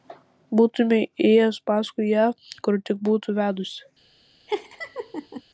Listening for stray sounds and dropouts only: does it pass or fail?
fail